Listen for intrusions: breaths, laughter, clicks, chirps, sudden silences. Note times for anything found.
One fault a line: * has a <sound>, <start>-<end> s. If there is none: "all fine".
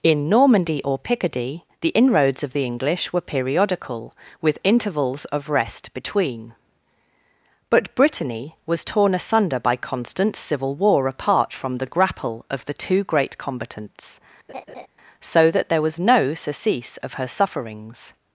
* has a laugh, 14.5-14.9 s